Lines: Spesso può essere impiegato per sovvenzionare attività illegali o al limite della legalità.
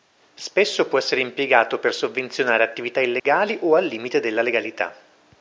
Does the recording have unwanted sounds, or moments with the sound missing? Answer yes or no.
yes